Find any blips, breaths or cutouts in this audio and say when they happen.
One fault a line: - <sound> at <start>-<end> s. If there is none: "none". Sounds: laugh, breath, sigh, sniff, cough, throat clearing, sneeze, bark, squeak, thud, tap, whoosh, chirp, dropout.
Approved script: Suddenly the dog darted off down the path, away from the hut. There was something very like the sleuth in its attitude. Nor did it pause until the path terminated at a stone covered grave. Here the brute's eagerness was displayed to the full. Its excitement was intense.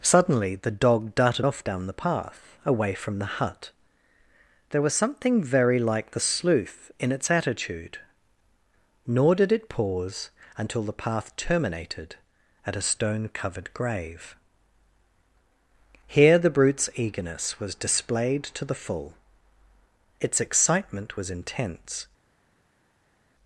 none